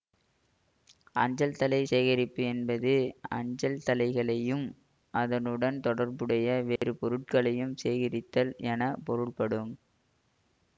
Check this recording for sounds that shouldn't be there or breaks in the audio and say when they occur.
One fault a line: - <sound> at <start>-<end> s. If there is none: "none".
- dropout at 6.8-6.8 s